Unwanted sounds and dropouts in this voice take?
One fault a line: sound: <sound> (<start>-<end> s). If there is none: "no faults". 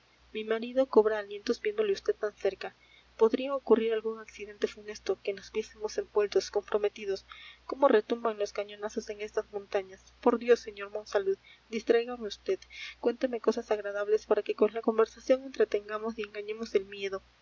no faults